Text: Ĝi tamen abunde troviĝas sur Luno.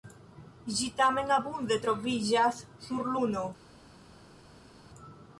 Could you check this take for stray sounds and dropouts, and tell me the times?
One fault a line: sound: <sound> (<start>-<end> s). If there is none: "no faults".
no faults